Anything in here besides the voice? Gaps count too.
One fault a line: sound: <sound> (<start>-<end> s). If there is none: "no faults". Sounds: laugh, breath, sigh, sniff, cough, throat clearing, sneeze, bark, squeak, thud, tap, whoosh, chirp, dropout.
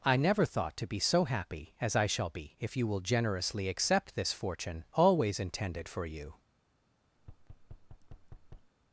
sound: thud (7.2-8.7 s)